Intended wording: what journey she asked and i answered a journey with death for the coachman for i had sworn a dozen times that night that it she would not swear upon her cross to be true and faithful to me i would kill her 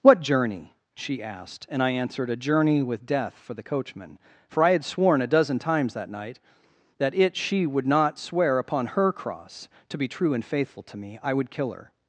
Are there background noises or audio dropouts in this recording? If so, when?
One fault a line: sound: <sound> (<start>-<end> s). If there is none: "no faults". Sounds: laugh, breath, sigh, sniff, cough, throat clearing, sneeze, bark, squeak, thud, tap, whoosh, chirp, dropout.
no faults